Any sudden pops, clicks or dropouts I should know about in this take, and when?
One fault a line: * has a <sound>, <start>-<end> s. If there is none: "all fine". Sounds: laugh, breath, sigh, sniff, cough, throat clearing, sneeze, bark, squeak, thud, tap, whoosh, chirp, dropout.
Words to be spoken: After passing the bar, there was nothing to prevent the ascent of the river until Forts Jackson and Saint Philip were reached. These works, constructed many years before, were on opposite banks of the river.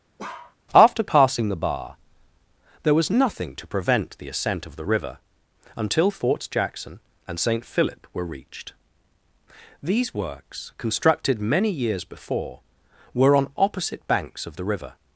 * has a bark, 0.2-0.6 s